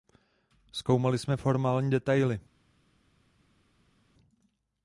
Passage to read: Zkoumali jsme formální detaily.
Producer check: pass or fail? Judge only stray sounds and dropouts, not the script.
pass